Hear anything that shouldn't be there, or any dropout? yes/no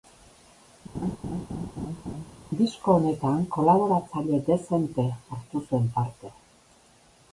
yes